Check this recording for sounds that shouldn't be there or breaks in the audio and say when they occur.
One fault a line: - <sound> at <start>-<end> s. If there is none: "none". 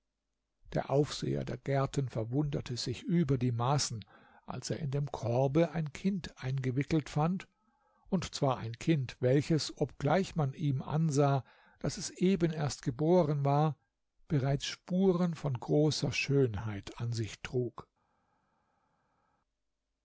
none